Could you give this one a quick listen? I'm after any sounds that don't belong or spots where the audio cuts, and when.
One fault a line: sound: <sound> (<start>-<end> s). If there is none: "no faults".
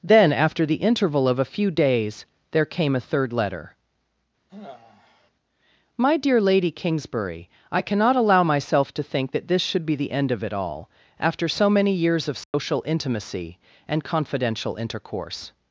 sound: sigh (4.5-5.3 s)
sound: dropout (12.4-12.5 s)